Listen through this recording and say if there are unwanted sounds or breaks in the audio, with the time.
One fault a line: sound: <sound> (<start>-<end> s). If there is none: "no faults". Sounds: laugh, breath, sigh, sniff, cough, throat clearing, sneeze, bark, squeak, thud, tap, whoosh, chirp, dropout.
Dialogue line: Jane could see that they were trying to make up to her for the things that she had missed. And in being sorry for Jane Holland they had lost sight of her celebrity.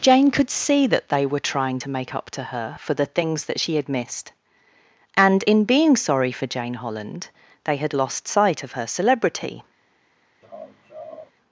sound: laugh (10.4-11.3 s)